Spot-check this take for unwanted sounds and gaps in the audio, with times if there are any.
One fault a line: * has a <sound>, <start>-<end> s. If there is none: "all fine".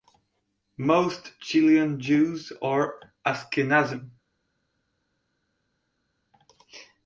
all fine